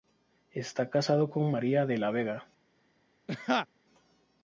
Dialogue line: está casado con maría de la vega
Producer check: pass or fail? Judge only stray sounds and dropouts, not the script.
fail